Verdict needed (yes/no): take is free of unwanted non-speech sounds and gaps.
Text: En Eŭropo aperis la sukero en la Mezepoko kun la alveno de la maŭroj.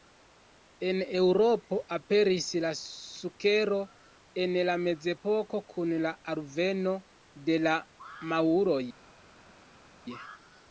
yes